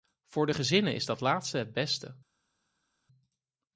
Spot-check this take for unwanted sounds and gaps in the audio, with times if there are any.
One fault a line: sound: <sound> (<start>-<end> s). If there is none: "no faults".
no faults